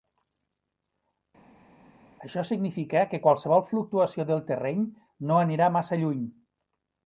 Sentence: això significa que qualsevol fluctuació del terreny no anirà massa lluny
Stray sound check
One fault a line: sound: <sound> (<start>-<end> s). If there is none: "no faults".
no faults